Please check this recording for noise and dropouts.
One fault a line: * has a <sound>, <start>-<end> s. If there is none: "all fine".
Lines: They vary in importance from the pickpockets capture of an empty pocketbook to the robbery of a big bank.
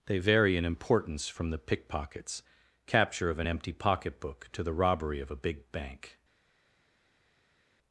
all fine